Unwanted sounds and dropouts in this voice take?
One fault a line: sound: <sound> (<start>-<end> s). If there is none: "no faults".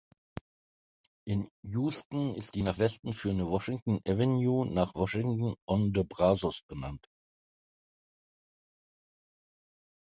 no faults